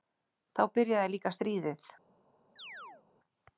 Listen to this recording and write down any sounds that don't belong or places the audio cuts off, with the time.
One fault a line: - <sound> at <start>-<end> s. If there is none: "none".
- chirp at 2.6-3.1 s